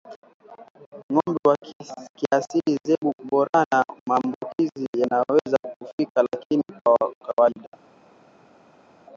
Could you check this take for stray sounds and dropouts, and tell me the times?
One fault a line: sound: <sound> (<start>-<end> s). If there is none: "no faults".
no faults